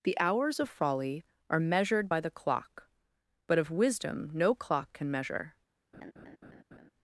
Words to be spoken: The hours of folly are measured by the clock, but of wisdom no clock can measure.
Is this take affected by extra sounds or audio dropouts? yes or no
yes